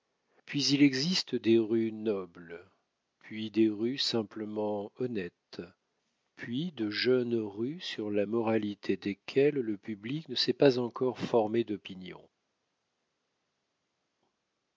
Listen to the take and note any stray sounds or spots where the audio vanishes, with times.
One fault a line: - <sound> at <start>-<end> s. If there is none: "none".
none